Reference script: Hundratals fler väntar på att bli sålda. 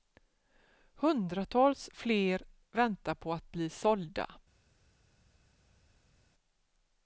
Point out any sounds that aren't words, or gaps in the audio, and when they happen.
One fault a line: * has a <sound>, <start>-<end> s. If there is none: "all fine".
all fine